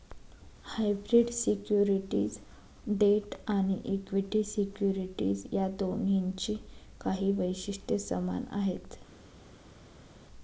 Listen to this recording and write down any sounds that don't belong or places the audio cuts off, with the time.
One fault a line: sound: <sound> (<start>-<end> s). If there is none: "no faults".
no faults